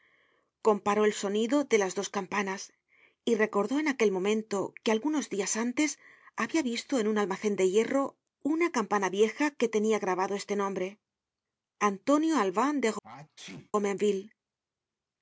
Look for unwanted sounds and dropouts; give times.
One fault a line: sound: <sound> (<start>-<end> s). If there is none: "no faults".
sound: sneeze (13.0-13.7 s)